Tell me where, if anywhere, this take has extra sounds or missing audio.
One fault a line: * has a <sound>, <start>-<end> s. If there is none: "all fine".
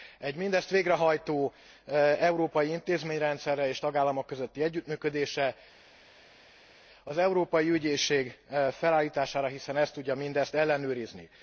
all fine